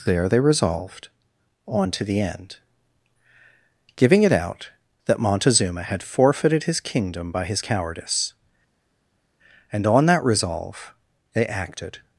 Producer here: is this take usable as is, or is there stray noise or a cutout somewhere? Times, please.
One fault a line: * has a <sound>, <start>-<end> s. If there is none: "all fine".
all fine